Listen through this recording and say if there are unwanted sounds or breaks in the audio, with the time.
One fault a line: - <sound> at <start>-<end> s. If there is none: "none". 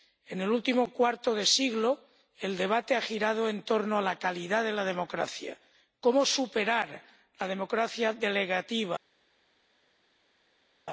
none